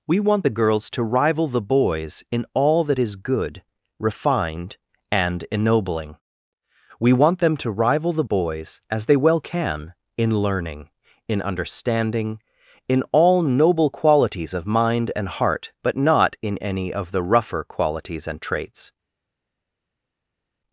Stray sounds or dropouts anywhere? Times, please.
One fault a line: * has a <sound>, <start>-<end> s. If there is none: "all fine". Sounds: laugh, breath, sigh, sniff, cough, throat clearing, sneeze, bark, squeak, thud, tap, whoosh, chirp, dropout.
all fine